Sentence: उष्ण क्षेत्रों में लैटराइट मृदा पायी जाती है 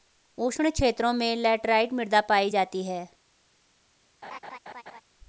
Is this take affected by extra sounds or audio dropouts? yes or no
yes